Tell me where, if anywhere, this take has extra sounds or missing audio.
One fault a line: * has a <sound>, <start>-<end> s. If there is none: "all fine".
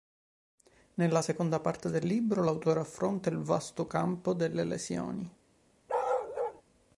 * has a bark, 5.9-6.6 s